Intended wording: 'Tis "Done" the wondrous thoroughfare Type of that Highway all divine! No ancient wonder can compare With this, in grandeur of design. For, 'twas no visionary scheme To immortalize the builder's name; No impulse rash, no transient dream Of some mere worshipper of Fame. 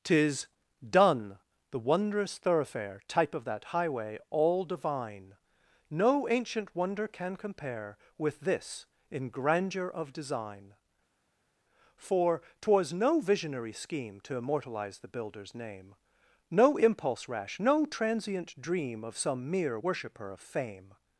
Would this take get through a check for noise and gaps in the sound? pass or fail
pass